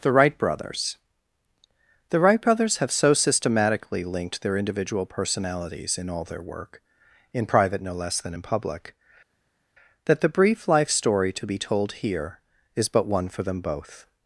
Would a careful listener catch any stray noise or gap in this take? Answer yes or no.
no